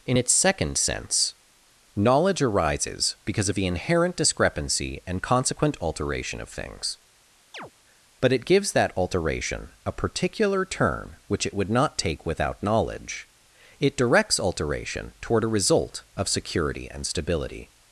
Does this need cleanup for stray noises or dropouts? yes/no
yes